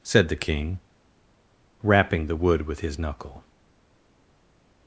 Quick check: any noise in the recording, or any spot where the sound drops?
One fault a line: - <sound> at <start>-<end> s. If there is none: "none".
none